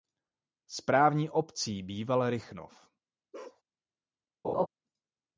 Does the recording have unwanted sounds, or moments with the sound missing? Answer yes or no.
yes